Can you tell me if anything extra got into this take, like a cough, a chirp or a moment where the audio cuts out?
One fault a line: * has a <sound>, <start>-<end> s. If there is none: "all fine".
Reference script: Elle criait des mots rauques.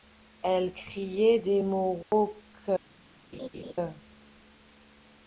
* has a dropout, 2.0-2.1 s
* has a laugh, 3.3-3.7 s